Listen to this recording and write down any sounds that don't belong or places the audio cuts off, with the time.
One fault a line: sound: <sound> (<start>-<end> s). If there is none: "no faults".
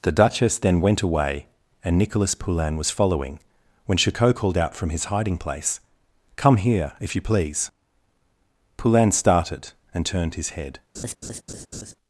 sound: laugh (10.9-12.0 s)